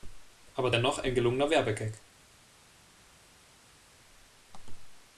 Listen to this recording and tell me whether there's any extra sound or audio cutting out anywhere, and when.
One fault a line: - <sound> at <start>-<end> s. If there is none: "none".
none